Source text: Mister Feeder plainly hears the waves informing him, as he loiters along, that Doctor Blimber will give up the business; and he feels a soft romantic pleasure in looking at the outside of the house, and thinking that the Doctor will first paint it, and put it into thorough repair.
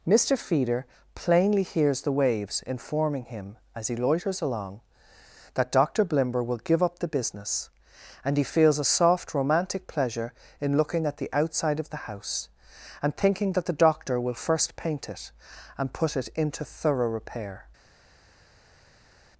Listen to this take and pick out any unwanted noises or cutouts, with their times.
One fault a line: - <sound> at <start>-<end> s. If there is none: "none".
none